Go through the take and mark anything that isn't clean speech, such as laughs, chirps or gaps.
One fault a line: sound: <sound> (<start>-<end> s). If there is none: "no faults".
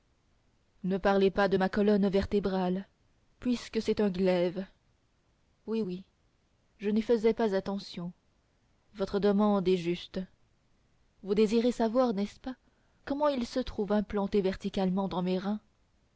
no faults